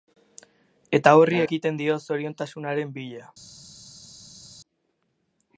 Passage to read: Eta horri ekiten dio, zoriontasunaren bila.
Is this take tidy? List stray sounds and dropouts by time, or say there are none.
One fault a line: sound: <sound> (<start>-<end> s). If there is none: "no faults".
no faults